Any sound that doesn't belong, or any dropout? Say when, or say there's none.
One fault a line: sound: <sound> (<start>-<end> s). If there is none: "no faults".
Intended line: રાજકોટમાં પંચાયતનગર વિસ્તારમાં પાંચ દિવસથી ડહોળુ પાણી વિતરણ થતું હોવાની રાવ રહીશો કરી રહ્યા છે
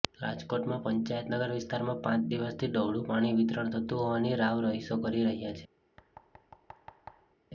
sound: thud (6.0-7.4 s)